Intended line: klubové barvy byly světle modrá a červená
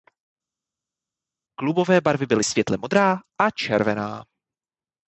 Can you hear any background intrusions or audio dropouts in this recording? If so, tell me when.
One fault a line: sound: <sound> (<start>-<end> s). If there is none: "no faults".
no faults